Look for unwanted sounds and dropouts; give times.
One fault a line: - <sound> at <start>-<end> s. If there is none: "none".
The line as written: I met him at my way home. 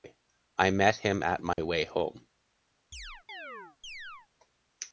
- dropout at 1.5-1.6 s
- chirp at 2.9-4.3 s